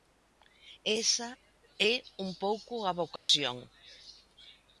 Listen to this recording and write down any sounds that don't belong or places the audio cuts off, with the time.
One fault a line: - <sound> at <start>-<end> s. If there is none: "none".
- dropout at 3.2-3.3 s